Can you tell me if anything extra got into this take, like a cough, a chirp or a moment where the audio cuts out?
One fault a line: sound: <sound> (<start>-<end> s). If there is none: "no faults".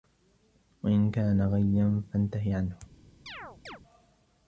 sound: chirp (3.3-3.8 s)